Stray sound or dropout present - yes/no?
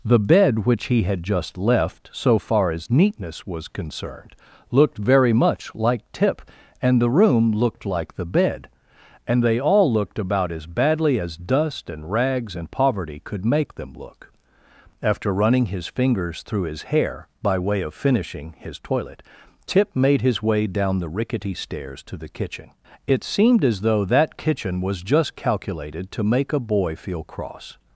no